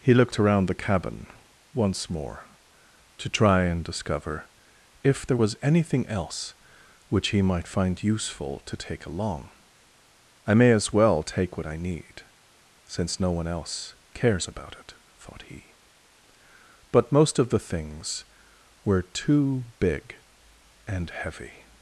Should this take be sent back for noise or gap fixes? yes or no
no